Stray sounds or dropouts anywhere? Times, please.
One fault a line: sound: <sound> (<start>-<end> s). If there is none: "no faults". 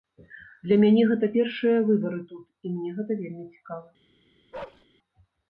sound: bark (4.5-4.9 s)